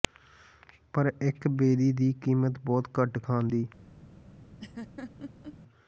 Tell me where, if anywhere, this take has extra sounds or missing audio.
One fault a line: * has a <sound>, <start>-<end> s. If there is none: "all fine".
* has a laugh, 4.6-5.6 s